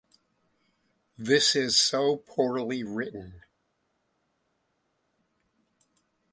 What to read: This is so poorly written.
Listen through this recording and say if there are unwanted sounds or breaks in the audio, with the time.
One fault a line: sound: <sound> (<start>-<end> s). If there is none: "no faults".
no faults